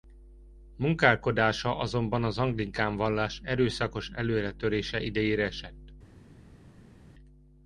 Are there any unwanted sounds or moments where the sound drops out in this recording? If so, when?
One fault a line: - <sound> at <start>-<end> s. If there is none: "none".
none